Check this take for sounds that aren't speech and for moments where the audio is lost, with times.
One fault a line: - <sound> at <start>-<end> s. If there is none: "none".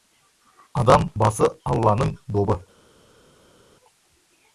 none